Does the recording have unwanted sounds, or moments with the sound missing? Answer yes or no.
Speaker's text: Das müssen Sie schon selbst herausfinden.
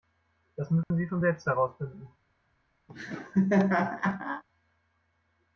yes